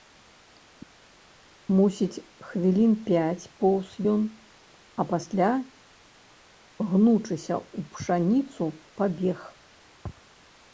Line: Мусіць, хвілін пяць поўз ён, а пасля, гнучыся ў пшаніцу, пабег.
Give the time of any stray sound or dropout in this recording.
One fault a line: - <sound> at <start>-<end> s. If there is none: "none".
none